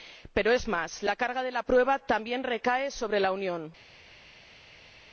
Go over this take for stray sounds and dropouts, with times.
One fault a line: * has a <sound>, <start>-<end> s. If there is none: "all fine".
all fine